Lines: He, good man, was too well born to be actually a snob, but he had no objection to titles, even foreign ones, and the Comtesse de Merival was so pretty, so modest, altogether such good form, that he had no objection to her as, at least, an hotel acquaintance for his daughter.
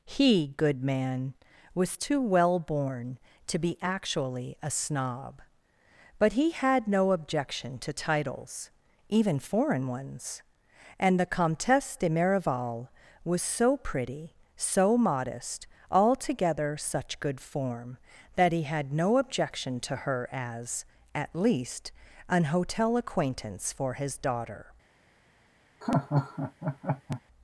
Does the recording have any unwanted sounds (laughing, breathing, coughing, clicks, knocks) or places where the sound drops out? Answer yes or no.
yes